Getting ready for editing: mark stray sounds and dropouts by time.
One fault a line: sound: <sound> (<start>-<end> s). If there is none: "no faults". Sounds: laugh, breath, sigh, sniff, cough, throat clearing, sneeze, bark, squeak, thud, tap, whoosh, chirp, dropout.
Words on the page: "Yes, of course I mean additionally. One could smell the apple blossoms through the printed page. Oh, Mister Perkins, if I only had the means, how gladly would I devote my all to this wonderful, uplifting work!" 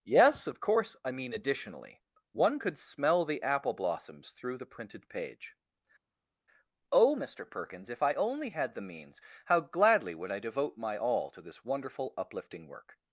no faults